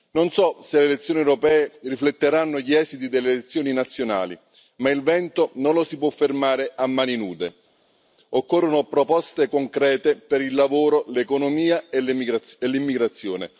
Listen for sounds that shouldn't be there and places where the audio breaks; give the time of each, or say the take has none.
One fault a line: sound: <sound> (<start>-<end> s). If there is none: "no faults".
no faults